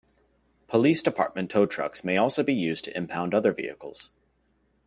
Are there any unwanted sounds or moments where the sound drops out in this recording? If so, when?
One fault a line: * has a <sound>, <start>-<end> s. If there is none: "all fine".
all fine